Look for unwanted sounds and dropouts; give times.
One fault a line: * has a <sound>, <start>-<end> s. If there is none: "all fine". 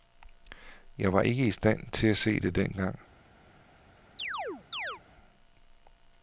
* has a chirp, 4.2-5.0 s